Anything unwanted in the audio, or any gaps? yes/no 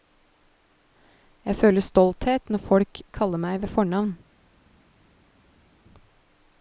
no